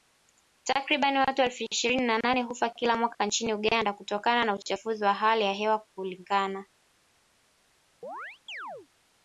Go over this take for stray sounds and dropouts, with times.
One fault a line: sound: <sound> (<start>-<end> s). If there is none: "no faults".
sound: chirp (8.0-8.9 s)